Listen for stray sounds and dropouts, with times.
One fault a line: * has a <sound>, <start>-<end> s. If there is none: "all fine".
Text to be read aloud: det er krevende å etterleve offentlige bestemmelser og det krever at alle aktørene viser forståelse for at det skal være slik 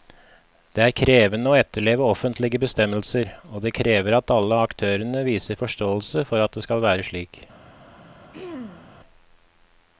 * has a throat clearing, 8.3-8.9 s